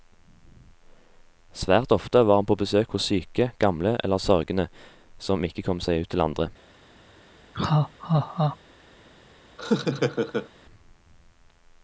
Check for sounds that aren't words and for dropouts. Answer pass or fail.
fail